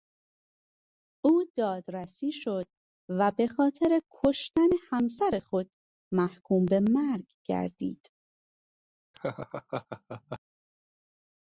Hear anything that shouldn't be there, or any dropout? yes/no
yes